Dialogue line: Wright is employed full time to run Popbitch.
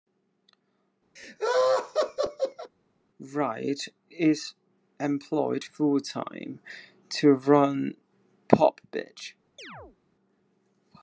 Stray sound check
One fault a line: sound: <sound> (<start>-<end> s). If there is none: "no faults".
sound: laugh (1.2-2.7 s)
sound: chirp (9.6-10.0 s)